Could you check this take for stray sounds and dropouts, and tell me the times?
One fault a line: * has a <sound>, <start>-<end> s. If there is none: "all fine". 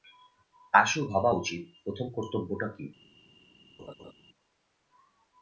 * has a laugh, 3.8-4.1 s